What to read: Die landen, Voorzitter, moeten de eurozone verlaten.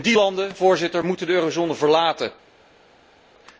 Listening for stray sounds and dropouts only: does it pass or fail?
pass